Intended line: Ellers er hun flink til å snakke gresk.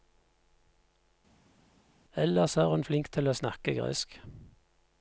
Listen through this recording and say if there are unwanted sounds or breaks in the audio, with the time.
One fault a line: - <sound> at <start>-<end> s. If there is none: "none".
none